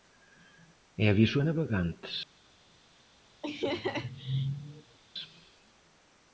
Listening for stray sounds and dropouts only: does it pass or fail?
fail